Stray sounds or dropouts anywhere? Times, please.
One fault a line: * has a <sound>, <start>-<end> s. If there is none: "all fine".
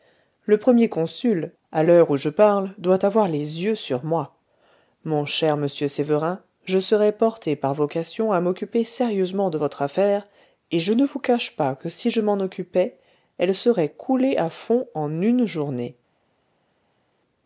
all fine